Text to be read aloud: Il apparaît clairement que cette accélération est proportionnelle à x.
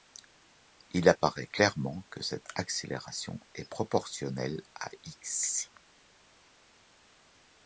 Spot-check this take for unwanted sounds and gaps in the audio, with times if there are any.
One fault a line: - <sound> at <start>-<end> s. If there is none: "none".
none